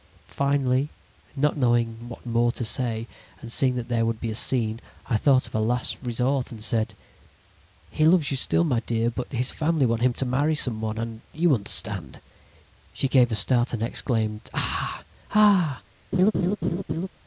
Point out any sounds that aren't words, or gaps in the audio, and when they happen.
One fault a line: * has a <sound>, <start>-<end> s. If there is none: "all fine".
* has a laugh, 16.1-17.1 s